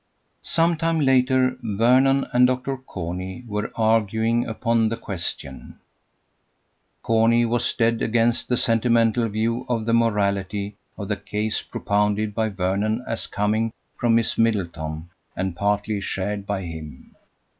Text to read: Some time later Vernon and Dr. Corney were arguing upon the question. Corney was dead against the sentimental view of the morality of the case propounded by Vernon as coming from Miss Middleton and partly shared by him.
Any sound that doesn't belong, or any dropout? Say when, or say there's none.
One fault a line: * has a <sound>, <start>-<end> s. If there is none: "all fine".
all fine